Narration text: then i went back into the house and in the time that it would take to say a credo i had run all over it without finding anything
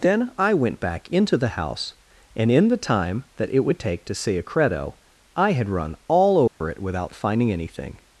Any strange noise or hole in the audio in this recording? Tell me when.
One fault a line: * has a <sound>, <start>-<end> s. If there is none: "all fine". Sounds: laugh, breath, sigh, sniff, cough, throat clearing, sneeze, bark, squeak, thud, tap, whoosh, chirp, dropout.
* has a dropout, 6.5-6.6 s